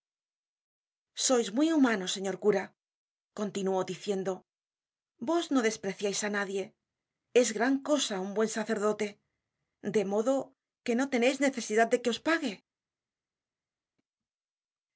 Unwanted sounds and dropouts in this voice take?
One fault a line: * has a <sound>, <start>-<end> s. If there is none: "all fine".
all fine